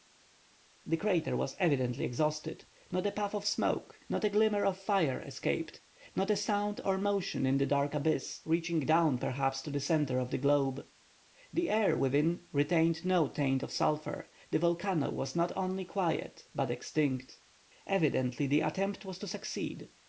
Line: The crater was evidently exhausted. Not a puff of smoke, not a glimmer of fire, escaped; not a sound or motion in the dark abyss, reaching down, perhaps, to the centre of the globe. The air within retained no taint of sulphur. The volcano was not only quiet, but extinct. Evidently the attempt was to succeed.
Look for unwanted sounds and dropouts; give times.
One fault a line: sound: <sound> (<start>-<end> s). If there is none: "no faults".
no faults